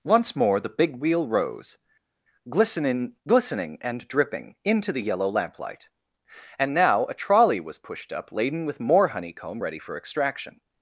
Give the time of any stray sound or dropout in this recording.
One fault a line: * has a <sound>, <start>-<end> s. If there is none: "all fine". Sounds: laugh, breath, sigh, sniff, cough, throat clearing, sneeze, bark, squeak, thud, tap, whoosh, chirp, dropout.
all fine